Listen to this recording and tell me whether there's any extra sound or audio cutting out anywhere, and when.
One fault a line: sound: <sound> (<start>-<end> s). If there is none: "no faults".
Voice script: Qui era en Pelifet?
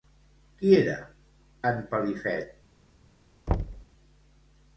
sound: thud (3.5-3.9 s)